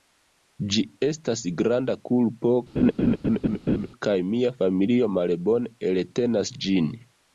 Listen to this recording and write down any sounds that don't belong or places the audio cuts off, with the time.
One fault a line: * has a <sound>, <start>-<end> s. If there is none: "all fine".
* has a laugh, 2.8-3.9 s